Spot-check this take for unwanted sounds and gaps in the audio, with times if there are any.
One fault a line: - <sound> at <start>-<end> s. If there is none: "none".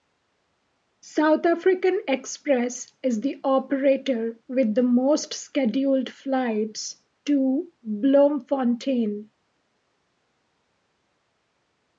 none